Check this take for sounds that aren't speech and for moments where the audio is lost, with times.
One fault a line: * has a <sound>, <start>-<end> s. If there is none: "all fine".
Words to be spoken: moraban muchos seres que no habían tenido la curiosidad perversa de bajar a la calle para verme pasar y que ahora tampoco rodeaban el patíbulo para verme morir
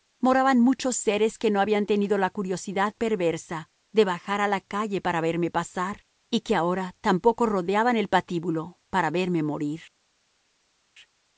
all fine